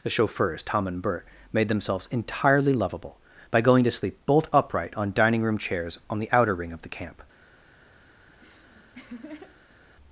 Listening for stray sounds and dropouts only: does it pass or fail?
fail